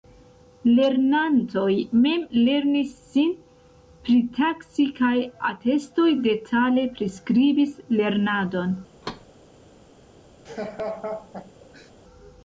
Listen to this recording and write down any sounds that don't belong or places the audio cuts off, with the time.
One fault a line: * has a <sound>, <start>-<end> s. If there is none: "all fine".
* has a thud, 9.0-9.3 s
* has a laugh, 10.5-11.9 s